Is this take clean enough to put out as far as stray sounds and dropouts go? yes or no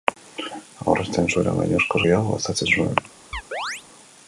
no